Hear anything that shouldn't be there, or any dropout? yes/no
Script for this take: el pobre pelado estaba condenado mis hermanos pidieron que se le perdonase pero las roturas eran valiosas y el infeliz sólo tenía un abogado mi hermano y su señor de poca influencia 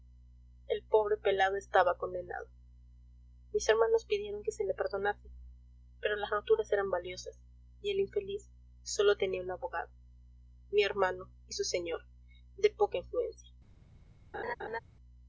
yes